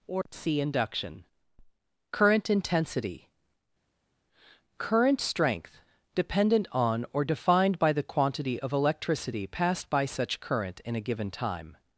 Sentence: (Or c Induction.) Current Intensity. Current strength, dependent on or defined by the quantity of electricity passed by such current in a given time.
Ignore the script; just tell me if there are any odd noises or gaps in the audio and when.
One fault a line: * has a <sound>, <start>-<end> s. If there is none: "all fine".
all fine